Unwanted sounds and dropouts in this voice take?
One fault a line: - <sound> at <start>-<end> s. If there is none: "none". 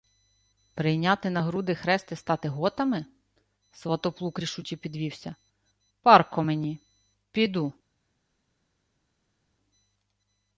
none